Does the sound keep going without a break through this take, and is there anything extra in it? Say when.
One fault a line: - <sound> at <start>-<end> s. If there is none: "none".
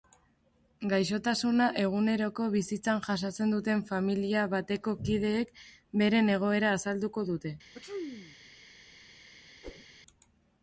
- sneeze at 7.7-8.4 s
- whoosh at 9.6-9.9 s